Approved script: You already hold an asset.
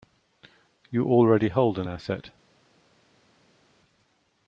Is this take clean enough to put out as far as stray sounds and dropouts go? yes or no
yes